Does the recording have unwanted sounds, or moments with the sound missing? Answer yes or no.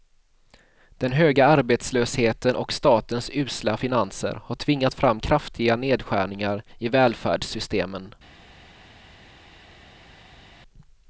no